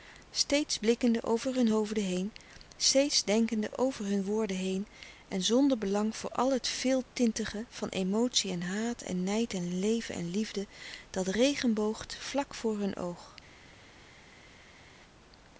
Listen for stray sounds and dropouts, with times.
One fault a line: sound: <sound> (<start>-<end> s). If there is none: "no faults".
no faults